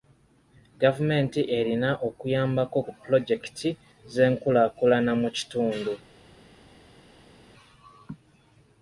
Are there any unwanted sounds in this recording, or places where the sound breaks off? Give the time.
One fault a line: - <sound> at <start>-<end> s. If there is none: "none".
none